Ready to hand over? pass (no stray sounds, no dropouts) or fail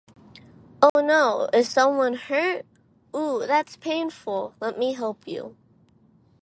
fail